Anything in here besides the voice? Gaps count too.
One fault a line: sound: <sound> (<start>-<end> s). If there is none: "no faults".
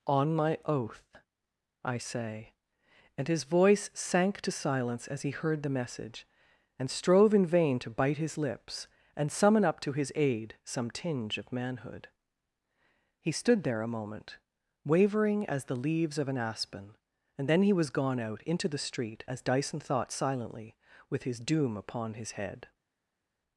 no faults